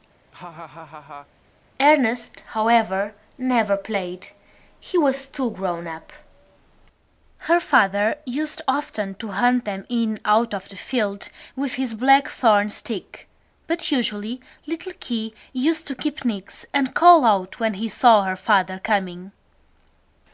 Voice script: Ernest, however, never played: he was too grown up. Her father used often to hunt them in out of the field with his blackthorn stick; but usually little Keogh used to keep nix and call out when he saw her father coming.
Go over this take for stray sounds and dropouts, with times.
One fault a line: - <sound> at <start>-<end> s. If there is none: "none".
- laugh at 0.3-1.3 s